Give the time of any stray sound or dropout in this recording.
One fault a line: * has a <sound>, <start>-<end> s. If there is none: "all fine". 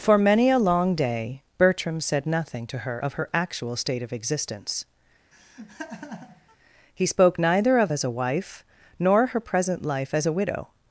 * has a laugh, 5.3-6.6 s